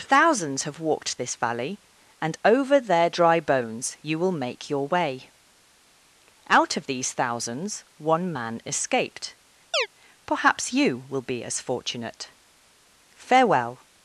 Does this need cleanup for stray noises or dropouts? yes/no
yes